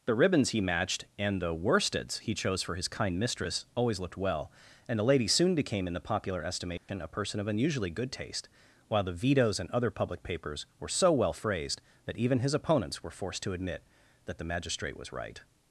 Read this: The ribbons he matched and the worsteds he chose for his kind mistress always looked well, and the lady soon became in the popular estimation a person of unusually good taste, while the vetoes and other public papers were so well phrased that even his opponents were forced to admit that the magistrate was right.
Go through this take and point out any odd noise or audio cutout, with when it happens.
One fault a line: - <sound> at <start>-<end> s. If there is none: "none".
- dropout at 6.8-6.9 s